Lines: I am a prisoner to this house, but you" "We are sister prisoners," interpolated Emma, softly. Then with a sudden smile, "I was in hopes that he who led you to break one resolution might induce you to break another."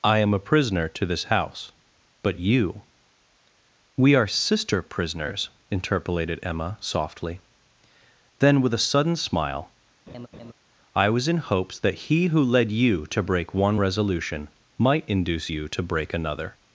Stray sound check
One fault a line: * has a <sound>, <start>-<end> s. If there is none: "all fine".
* has a laugh, 10.1-10.5 s